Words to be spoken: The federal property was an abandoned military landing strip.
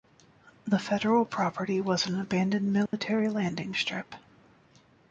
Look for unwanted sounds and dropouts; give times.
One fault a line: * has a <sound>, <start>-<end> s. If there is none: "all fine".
* has a dropout, 2.9-2.9 s